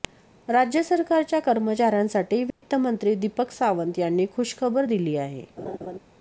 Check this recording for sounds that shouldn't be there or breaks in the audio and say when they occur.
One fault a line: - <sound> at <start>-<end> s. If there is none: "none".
- dropout at 2.5-2.6 s
- laugh at 5.6-6.0 s